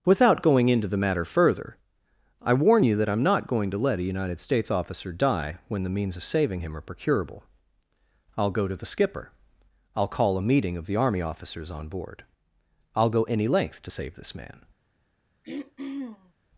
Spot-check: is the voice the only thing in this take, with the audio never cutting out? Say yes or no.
no